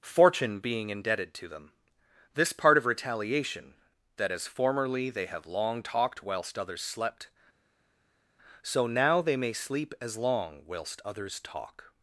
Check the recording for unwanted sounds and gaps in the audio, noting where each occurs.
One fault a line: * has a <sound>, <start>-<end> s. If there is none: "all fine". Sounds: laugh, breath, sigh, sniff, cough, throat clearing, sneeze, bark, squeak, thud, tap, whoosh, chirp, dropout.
all fine